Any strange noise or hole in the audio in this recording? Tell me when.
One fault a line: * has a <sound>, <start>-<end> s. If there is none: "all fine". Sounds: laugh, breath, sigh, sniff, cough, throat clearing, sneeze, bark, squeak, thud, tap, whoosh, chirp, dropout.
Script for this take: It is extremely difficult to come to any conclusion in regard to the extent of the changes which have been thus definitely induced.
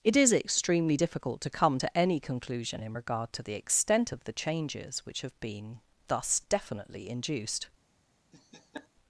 * has a laugh, 8.3-8.9 s